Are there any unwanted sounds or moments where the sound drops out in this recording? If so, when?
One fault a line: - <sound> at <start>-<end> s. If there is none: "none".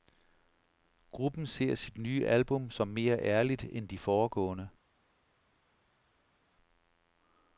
none